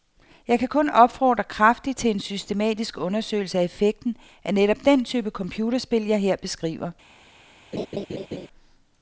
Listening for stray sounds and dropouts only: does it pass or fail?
fail